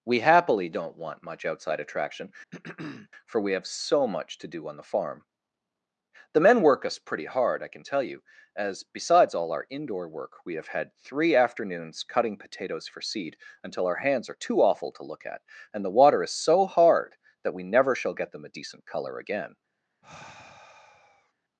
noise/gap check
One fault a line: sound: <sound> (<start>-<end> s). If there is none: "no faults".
sound: throat clearing (2.5-3.1 s)
sound: sigh (20.0-21.3 s)